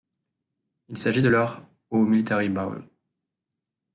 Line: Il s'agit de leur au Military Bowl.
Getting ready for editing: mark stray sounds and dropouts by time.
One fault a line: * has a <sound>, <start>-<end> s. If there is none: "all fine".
all fine